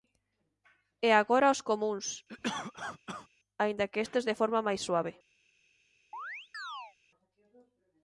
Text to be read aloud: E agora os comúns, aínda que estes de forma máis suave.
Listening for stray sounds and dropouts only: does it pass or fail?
fail